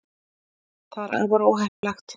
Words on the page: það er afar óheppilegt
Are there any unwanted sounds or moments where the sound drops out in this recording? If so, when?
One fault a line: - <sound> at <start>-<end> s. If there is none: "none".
- dropout at 1.7-1.8 s